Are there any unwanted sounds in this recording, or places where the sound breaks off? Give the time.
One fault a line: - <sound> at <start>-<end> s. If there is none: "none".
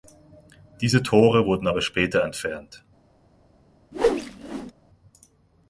- whoosh at 3.9-4.7 s